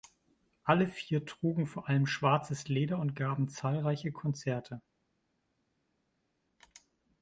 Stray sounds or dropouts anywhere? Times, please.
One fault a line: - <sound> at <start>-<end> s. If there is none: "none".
none